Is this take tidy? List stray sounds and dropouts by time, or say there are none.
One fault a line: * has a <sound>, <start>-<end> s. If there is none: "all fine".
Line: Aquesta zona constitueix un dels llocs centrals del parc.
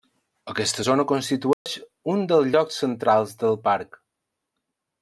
* has a dropout, 1.5-1.7 s